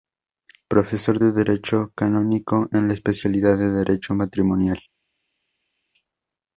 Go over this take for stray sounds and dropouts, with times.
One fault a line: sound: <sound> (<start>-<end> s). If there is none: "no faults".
no faults